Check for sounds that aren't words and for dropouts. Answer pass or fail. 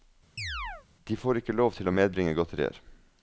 fail